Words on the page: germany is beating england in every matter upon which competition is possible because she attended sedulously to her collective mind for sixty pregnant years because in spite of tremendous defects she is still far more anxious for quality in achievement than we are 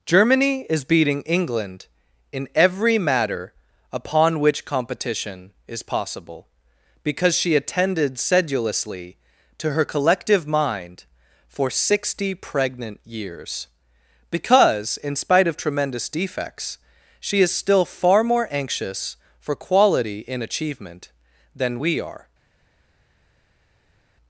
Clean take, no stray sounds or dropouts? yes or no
yes